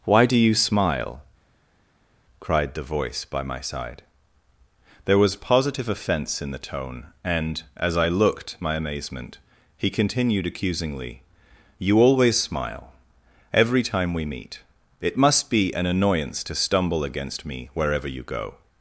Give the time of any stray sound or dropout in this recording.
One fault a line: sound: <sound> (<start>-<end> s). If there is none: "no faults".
no faults